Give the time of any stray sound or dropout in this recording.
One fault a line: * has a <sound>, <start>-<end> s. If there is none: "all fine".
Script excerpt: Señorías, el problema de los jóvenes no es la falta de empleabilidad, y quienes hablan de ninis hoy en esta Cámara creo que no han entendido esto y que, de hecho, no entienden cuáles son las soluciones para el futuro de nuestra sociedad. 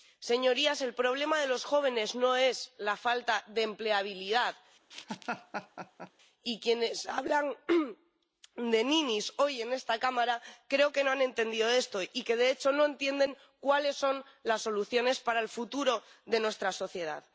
* has a laugh, 4.9-6.1 s